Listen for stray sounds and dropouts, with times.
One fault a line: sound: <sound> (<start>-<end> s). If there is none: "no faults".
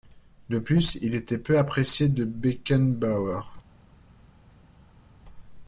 no faults